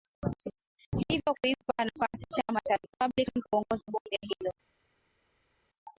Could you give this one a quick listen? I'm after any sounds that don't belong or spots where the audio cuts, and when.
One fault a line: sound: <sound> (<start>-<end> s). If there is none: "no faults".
no faults